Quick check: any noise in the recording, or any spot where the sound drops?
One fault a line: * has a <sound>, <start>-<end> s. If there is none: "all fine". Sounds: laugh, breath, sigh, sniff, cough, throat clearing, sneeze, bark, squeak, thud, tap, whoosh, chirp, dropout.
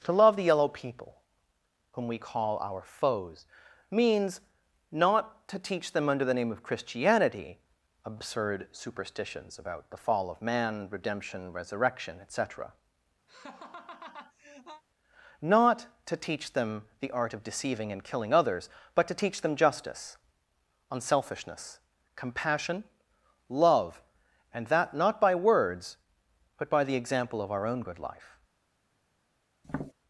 * has a laugh, 13.3-14.8 s
* has a tap, 29.6-29.9 s